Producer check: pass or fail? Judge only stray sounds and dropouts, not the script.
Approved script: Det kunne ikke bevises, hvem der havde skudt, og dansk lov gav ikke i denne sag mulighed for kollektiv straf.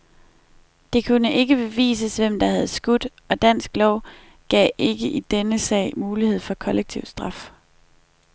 pass